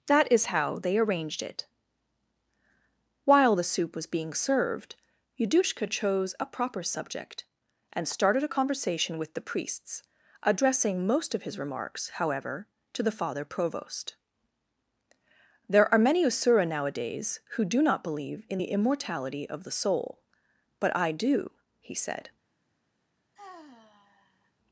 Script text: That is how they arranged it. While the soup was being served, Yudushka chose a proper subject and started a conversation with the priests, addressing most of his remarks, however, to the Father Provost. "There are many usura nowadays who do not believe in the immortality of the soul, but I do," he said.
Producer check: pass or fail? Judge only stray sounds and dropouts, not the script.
fail